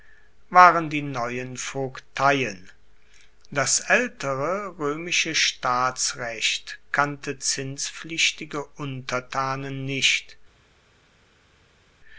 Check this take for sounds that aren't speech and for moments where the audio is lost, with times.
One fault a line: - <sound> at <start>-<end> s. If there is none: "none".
none